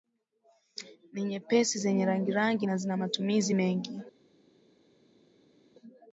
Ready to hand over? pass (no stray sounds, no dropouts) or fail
pass